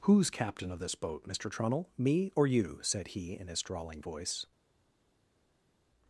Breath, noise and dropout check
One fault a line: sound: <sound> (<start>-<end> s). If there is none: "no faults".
no faults